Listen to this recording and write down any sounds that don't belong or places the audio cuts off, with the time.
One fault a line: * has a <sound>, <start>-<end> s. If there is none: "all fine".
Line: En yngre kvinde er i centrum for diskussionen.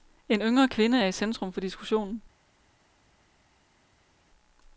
all fine